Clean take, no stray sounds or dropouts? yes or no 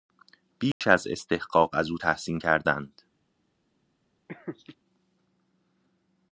no